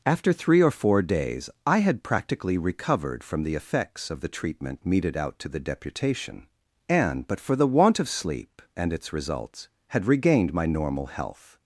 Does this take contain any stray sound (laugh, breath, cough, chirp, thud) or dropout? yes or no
no